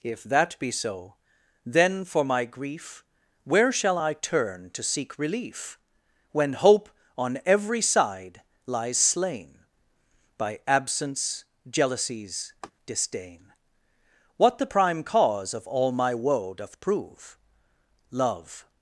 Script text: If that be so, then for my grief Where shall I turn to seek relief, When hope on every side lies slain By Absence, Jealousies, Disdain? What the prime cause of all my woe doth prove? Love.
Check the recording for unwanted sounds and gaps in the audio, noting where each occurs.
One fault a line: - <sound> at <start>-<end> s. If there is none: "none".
- laugh at 12.6-12.7 s